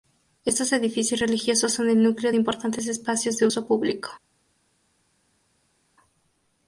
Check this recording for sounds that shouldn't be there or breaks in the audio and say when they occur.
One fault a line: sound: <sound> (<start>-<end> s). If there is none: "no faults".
no faults